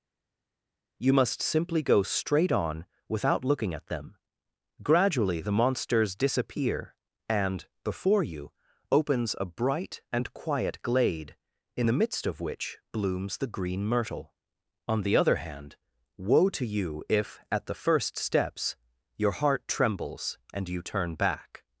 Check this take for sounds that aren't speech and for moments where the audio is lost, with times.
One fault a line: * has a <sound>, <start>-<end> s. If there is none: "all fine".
all fine